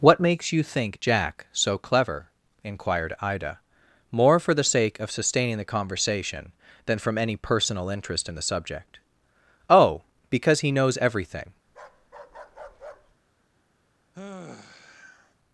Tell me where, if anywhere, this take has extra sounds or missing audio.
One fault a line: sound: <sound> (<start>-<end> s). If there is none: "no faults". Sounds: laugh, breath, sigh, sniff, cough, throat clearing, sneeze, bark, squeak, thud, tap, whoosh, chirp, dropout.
sound: bark (11.7-13.2 s)
sound: sigh (14.1-15.3 s)